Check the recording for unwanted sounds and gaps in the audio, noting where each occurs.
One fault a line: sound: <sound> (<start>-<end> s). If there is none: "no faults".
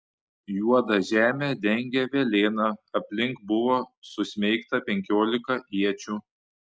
no faults